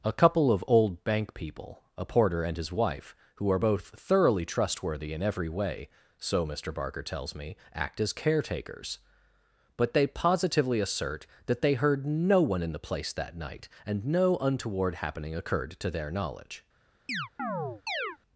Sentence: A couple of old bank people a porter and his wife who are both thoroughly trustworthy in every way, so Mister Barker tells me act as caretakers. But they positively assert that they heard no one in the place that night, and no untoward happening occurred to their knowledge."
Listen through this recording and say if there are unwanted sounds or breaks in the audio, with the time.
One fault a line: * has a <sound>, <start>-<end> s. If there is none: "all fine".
* has a chirp, 17.1-18.2 s